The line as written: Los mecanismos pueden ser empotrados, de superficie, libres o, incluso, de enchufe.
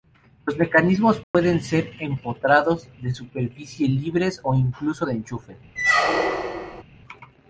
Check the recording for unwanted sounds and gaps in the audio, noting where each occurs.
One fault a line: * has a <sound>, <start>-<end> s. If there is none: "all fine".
* has a dropout, 1.2-1.3 s
* has a squeak, 5.8-6.8 s